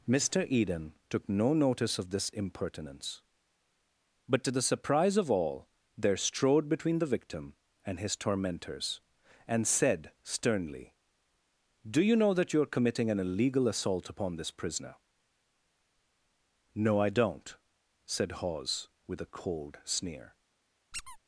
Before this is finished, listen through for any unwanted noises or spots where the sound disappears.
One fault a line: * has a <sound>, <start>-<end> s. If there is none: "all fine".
* has a squeak, 20.9-21.2 s